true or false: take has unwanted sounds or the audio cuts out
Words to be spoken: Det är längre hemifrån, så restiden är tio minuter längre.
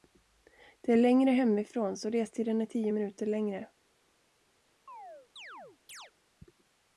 true